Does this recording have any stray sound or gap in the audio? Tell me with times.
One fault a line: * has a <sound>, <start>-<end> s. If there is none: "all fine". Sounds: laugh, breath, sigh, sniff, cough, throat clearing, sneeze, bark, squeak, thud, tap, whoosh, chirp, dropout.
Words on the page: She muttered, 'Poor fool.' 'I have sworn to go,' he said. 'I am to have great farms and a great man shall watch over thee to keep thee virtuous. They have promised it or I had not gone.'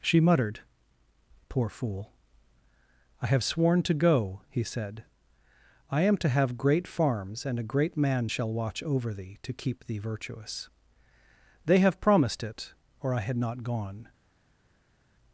all fine